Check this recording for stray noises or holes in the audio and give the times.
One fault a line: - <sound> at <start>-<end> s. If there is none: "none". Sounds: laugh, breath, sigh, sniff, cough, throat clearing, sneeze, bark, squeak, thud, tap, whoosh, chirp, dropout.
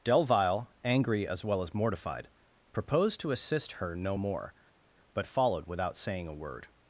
none